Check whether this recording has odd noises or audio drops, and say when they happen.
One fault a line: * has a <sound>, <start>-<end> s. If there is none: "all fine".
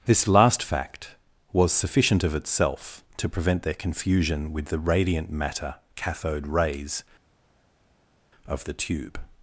all fine